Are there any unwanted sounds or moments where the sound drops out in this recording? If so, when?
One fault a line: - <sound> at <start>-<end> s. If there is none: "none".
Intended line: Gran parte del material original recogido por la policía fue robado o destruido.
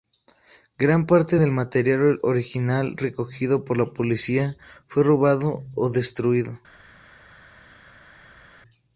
none